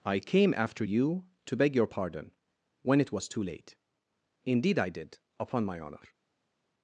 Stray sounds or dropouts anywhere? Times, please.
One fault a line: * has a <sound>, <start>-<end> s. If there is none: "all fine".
all fine